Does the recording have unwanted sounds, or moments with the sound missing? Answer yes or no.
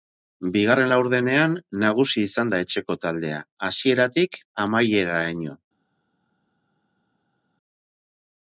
no